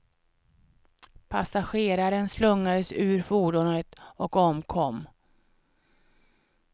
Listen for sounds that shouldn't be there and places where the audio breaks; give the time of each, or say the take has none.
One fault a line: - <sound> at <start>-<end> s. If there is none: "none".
none